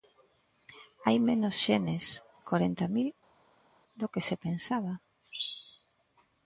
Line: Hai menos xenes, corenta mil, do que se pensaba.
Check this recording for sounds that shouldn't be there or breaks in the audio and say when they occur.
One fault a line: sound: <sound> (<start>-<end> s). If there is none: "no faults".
no faults